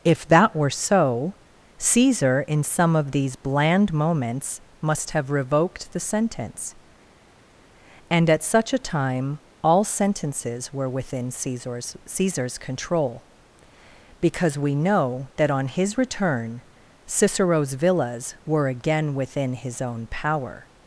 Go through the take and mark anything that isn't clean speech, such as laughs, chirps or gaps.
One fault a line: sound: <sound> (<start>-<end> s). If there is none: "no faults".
no faults